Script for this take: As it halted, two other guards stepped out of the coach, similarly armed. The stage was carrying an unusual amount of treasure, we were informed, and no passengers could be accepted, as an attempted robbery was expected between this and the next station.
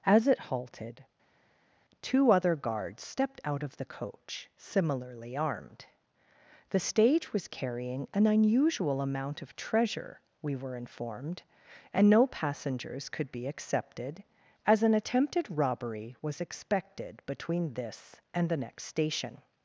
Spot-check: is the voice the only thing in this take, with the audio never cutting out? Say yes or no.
yes